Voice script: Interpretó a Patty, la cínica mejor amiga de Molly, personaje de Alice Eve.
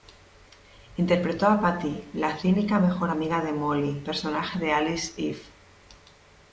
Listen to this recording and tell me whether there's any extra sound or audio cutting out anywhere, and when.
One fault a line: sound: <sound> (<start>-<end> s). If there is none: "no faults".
no faults